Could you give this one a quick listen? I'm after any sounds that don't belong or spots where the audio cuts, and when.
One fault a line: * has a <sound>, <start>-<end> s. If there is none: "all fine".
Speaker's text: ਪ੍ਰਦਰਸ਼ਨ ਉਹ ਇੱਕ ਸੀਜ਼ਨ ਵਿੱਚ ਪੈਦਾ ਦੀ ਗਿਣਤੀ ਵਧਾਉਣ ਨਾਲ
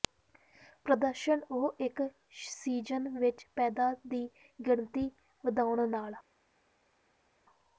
all fine